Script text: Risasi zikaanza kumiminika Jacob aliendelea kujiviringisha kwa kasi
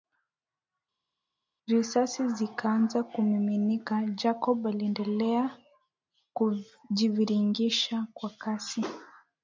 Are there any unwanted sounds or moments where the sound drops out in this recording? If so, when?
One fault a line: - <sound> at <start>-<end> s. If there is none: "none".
none